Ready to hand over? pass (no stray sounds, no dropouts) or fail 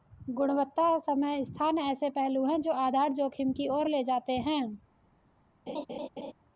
fail